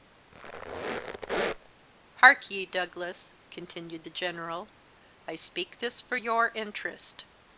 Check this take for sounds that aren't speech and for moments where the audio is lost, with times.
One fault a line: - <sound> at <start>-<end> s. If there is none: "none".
- squeak at 0.3-1.7 s